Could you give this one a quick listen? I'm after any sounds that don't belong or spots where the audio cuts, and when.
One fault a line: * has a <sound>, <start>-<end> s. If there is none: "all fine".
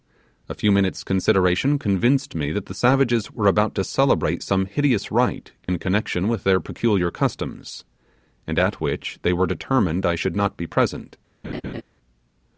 * has a dropout, 5.6-5.7 s
* has a laugh, 11.4-11.8 s